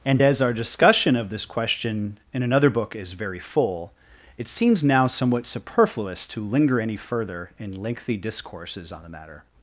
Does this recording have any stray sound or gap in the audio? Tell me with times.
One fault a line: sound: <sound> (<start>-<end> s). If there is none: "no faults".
no faults